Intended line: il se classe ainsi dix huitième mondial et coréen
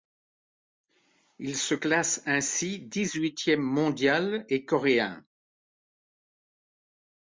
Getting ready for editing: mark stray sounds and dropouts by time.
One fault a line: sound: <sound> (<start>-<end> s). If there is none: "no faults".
no faults